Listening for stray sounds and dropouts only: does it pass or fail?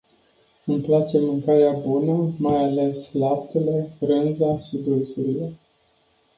pass